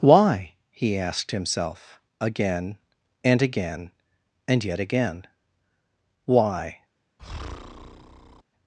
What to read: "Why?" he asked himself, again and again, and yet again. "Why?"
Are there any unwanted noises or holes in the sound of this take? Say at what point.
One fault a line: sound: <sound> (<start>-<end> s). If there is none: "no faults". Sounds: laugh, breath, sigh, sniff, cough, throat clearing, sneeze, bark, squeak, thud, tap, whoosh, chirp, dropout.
sound: breath (7.2-8.4 s)